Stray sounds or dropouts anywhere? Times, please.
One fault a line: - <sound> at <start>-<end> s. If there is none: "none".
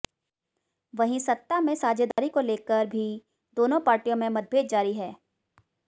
- dropout at 2.1-2.2 s